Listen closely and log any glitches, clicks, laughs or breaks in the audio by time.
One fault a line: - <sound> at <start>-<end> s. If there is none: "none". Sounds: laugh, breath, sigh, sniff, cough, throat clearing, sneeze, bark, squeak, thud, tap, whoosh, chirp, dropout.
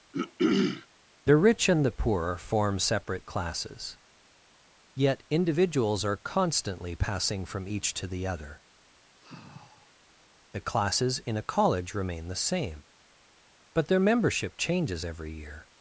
- throat clearing at 0.1-0.9 s
- sigh at 9.2-9.9 s